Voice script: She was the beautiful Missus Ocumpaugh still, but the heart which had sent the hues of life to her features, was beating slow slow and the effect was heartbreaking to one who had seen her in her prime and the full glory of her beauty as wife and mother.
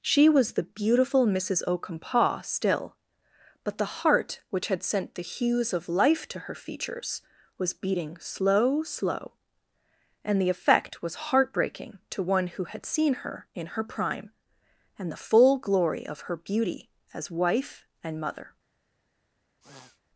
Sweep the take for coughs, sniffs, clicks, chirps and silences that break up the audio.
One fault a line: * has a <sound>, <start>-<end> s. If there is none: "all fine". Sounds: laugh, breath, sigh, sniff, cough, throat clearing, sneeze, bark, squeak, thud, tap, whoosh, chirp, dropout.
* has a sniff, 19.6-20.0 s